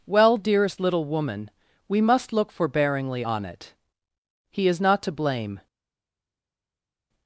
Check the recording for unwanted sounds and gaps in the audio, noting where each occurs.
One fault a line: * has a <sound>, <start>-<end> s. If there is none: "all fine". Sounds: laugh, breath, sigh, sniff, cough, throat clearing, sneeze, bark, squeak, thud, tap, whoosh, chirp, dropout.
all fine